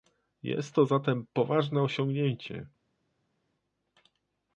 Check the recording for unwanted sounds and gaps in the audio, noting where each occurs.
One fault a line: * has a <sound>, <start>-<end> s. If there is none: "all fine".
all fine